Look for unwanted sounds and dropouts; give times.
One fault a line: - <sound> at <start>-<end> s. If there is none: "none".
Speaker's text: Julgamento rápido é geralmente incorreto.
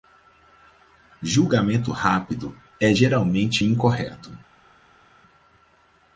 none